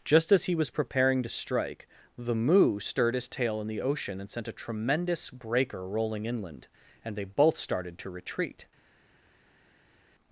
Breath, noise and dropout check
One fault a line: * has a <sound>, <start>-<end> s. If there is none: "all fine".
all fine